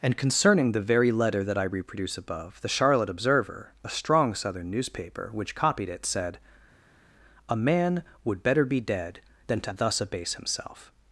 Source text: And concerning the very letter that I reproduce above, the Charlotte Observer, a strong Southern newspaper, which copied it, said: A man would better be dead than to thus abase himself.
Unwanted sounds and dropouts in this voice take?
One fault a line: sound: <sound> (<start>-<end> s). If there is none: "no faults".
no faults